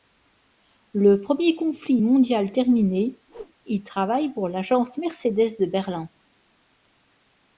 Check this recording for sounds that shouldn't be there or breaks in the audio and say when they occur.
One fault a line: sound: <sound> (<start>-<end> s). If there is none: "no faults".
sound: whoosh (3.3-3.5 s)